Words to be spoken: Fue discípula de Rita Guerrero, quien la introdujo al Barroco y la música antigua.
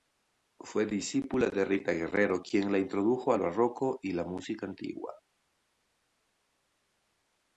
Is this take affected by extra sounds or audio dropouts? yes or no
no